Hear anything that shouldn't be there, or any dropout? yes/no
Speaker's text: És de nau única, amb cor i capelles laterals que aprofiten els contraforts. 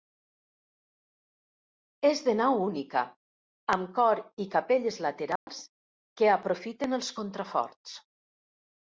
yes